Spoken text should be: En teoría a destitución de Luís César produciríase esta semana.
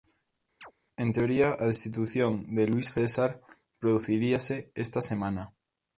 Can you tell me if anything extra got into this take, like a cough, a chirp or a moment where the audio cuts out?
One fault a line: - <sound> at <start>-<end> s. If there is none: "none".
- chirp at 0.6-0.7 s